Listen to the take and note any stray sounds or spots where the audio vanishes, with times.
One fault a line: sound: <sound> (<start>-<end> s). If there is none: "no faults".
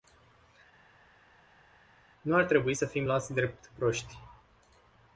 no faults